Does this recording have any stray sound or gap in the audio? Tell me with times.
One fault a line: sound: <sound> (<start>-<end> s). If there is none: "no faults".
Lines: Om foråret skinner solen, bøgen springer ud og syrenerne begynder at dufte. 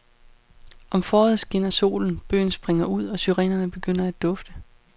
no faults